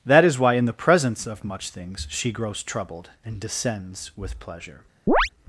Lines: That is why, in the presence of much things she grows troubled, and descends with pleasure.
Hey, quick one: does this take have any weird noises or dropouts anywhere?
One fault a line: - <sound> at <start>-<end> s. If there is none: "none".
- chirp at 5.1-5.3 s